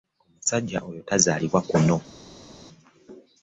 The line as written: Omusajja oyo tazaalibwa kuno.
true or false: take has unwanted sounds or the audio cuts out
false